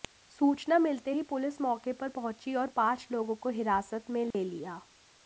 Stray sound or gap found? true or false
true